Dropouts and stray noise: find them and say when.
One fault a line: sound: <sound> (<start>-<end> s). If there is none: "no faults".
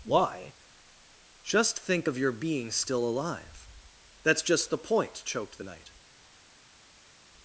no faults